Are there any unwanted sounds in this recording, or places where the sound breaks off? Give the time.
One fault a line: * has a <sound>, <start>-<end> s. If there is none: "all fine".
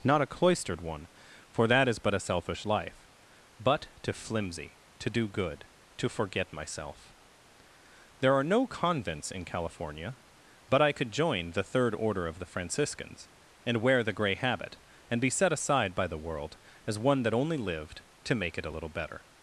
all fine